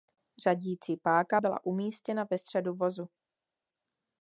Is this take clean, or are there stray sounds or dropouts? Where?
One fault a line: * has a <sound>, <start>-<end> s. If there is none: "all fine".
all fine